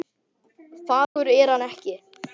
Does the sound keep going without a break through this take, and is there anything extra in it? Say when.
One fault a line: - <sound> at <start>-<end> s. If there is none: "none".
- dropout at 1.0-1.2 s